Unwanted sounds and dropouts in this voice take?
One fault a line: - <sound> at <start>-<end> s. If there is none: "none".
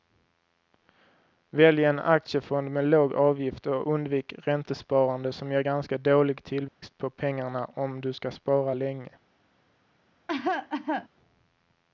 - dropout at 6.7-6.8 s
- cough at 10.3-11.1 s